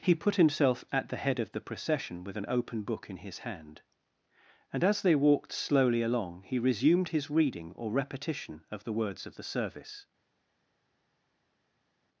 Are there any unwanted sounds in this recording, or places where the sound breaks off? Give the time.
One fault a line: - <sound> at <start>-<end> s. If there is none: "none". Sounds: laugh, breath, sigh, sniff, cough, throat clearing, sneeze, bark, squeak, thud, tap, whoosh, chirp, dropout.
none